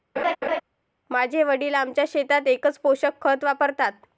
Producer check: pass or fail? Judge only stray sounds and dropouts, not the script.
fail